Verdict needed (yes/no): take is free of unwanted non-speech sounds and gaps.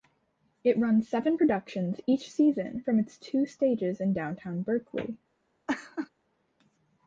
no